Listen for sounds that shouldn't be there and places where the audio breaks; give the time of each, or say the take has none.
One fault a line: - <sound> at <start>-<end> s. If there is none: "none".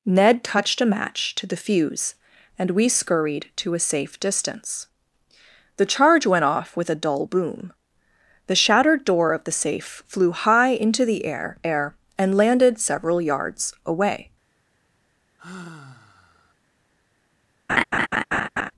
- sigh at 15.4-16.5 s
- laugh at 17.7-18.7 s